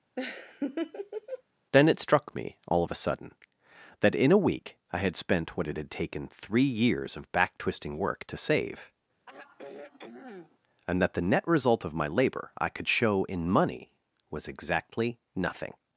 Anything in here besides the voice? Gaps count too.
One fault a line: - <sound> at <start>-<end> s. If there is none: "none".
- laugh at 0.2-1.4 s
- sigh at 9.3-10.6 s